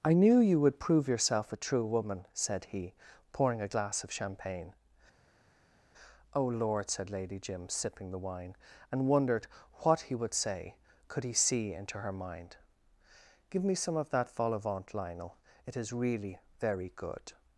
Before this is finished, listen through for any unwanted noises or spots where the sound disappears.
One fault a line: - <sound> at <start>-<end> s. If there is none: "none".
none